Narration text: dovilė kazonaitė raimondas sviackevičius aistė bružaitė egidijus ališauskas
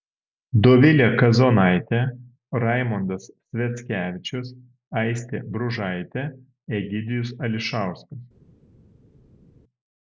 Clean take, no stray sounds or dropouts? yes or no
yes